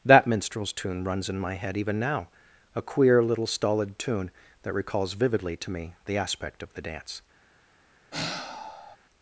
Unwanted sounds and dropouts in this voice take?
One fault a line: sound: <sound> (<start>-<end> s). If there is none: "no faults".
sound: sigh (8.1-9.0 s)